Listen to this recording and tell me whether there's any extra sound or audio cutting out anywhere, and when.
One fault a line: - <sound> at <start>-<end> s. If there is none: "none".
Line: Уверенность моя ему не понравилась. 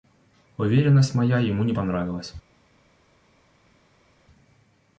none